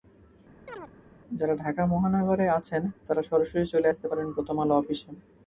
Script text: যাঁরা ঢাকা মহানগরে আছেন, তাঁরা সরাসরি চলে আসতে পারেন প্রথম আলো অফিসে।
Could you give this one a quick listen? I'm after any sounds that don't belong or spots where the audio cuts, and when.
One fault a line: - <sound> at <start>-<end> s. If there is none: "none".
- chirp at 0.7-0.9 s